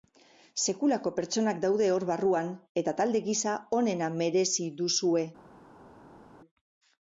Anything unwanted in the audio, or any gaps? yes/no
no